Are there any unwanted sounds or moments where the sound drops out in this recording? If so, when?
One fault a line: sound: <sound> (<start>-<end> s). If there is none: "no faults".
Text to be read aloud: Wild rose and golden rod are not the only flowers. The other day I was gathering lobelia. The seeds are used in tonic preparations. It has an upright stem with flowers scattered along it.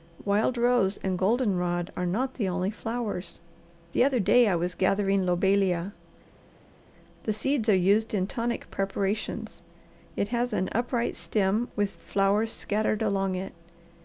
no faults